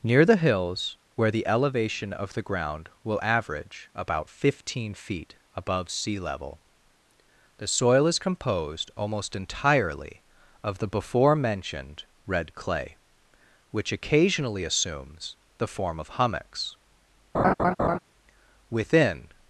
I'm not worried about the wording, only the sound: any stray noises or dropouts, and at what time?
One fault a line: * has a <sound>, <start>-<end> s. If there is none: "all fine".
* has a laugh, 17.3-18.0 s